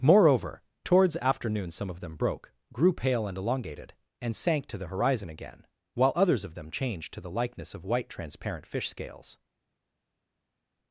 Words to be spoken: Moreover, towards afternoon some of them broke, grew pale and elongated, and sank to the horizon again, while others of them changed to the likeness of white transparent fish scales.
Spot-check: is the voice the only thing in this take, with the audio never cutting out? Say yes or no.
yes